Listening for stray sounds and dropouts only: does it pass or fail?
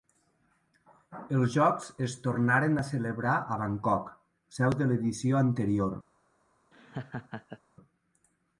fail